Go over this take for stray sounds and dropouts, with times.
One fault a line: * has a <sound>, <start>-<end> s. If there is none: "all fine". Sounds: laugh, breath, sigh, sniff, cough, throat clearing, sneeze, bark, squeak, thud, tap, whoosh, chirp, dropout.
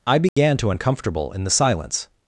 * has a dropout, 0.3-0.4 s